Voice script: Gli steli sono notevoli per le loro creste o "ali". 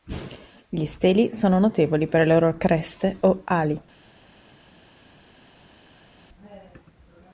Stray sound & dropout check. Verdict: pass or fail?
pass